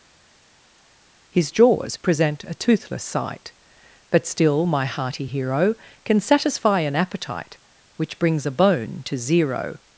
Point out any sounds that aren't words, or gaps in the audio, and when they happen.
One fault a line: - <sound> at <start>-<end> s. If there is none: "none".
none